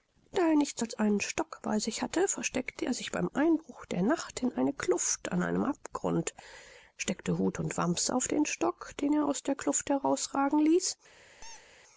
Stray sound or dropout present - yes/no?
yes